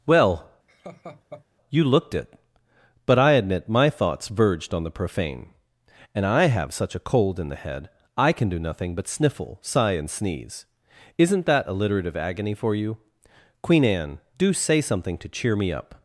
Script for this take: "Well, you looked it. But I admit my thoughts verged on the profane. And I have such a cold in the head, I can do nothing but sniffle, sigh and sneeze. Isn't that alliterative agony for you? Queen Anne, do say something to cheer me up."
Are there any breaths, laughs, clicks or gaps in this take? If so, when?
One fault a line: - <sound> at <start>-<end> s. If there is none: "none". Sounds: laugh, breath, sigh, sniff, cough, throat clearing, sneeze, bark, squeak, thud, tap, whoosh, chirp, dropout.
- laugh at 0.7-1.5 s